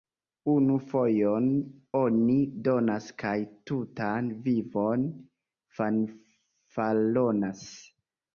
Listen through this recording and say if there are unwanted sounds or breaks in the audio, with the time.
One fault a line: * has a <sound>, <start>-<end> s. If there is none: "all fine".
all fine